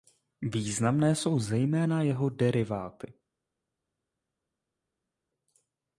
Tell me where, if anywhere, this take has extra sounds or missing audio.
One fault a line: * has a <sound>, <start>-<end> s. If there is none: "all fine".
all fine